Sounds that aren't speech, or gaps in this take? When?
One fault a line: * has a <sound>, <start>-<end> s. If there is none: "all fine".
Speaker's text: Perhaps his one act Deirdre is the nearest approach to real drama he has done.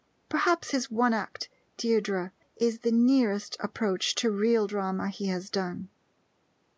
all fine